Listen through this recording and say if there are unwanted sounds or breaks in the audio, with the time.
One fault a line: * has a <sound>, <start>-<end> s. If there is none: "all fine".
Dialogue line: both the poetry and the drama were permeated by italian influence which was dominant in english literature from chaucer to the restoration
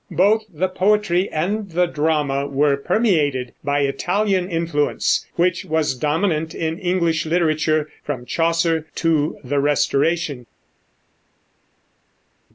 all fine